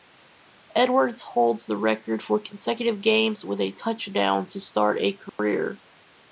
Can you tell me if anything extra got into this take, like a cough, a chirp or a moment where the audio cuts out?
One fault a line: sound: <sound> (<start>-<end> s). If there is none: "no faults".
sound: dropout (5.3-5.4 s)